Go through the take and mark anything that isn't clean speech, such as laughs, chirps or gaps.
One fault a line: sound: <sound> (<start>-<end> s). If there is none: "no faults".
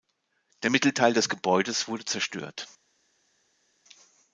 no faults